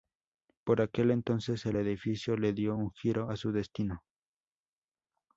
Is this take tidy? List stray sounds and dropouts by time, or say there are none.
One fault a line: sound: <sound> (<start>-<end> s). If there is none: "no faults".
no faults